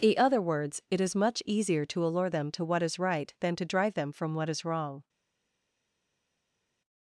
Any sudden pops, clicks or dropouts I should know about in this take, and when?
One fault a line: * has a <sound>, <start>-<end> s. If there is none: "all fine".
all fine